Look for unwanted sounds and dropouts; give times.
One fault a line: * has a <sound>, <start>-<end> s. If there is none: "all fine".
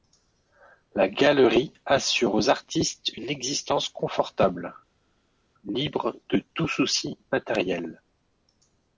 all fine